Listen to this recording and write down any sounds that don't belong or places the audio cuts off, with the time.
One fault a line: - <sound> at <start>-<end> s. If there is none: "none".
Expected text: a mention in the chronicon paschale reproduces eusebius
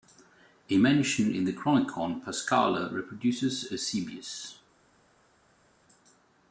none